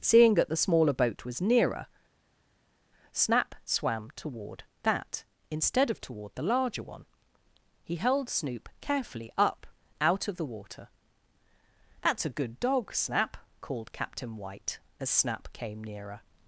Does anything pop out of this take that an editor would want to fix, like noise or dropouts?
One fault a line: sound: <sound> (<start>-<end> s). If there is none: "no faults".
no faults